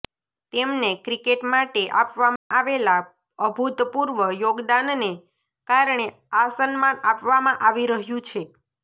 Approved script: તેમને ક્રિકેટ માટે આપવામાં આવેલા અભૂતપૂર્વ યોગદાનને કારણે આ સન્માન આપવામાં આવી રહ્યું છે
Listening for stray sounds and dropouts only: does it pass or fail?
fail